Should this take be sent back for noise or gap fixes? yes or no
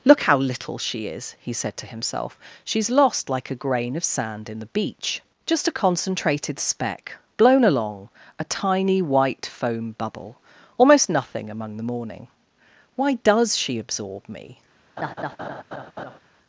yes